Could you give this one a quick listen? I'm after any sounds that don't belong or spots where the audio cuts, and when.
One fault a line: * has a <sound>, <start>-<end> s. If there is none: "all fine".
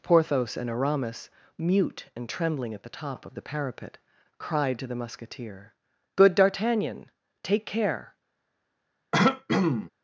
* has a throat clearing, 9.1-9.9 s